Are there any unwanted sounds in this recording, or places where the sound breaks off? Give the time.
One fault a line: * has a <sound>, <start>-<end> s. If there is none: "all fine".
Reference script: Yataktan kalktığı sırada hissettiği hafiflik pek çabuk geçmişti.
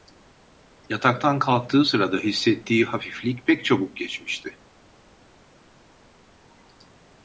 all fine